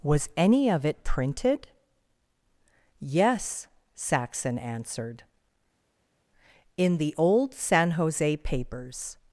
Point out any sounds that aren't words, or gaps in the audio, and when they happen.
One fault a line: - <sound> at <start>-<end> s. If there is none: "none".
none